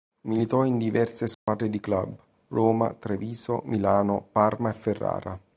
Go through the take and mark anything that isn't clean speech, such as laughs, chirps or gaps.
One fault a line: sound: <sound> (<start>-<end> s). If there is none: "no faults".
sound: dropout (1.3-1.5 s)